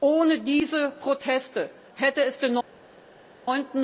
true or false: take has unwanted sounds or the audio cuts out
false